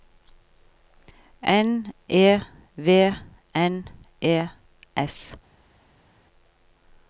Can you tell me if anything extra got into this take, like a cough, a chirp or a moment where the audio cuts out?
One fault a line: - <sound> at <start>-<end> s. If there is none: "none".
none